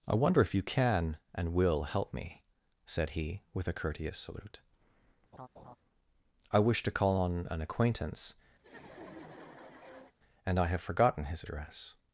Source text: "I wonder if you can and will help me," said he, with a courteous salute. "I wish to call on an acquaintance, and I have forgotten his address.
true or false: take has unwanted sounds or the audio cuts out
true